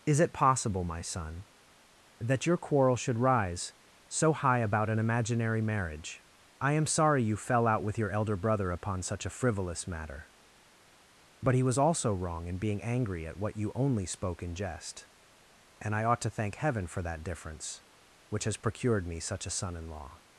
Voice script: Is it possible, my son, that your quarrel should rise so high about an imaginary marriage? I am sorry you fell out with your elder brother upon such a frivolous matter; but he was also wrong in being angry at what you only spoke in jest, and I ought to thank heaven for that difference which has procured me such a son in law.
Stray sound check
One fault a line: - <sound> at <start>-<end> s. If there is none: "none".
none